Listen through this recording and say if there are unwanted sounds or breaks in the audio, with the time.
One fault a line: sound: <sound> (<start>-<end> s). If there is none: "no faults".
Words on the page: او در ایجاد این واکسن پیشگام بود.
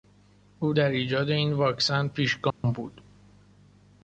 sound: dropout (2.5-2.6 s)